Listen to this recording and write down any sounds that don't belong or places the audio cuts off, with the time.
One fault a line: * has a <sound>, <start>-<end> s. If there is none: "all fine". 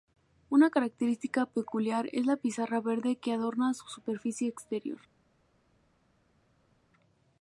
all fine